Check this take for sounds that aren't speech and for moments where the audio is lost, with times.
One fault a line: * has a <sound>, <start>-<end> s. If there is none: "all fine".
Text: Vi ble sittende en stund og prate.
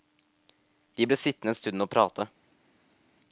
all fine